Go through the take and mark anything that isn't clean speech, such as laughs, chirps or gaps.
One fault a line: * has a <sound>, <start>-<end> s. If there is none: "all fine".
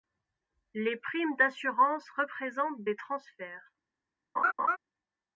* has a laugh, 4.4-4.8 s